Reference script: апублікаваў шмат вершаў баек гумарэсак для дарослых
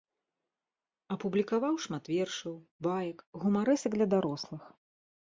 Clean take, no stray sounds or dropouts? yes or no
yes